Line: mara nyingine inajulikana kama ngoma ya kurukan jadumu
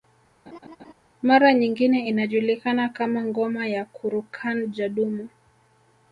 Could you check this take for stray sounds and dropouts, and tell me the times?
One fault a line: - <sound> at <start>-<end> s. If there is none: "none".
- laugh at 0.5-0.9 s